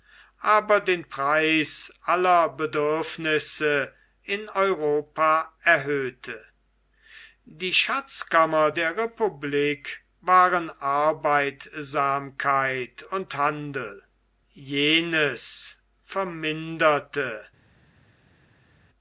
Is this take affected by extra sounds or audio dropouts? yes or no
no